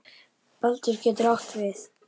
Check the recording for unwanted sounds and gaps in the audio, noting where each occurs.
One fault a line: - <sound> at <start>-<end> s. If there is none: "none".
none